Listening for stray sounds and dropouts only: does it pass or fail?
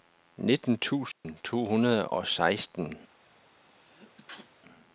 fail